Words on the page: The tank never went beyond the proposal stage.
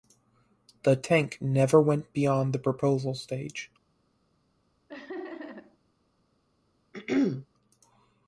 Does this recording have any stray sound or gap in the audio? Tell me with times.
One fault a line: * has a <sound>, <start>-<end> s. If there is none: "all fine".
* has a laugh, 4.9-5.8 s
* has a throat clearing, 6.9-7.5 s